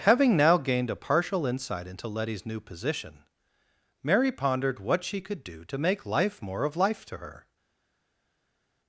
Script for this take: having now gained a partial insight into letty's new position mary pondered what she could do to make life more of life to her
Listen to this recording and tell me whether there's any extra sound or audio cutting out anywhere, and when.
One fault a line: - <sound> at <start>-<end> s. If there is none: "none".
none